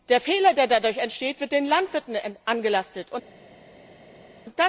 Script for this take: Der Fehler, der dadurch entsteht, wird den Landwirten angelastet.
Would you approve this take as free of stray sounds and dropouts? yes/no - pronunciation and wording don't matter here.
yes